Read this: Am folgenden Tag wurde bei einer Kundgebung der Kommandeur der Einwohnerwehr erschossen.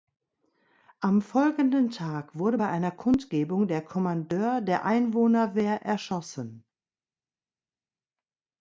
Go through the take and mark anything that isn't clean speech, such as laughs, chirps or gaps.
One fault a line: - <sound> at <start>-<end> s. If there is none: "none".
none